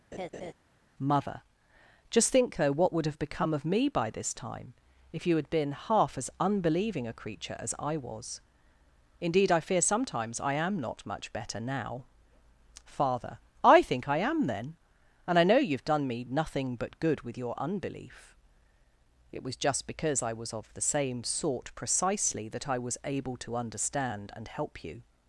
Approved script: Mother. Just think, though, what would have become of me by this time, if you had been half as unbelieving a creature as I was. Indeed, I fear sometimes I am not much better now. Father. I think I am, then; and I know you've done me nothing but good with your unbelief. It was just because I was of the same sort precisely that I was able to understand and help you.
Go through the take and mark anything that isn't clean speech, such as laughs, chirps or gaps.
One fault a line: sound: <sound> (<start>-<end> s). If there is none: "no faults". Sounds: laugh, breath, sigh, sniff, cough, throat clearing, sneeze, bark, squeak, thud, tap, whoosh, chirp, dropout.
sound: laugh (0.1-0.5 s)